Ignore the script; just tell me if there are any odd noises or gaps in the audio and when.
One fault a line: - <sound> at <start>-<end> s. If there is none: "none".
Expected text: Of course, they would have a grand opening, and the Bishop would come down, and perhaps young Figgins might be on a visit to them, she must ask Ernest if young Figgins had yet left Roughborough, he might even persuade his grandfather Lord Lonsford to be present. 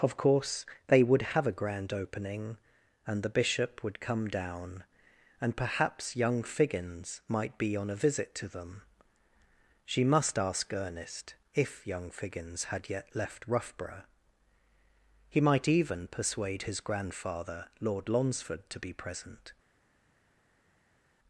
none